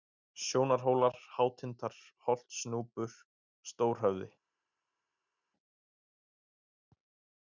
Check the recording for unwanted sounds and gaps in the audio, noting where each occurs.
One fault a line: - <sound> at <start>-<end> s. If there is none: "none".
none